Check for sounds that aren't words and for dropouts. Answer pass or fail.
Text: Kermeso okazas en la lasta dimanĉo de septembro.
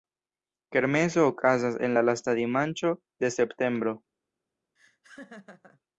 fail